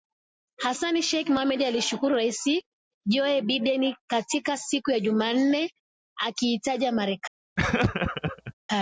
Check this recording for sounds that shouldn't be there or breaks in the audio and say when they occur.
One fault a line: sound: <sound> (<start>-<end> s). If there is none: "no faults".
sound: laugh (7.6-8.5 s)